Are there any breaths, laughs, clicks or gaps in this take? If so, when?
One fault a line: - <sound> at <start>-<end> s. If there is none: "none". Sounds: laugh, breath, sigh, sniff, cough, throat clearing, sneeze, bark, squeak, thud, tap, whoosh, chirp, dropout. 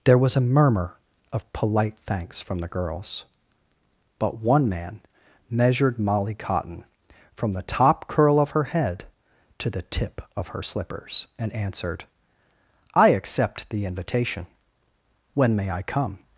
none